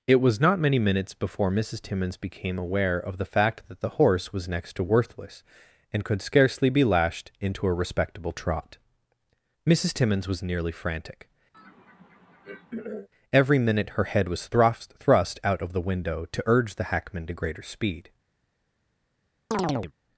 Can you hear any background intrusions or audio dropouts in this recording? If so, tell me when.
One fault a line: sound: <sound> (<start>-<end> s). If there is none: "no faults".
sound: throat clearing (11.5-13.1 s)
sound: chirp (19.5-19.9 s)